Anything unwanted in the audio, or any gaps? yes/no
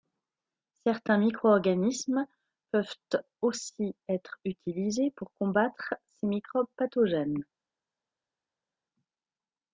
no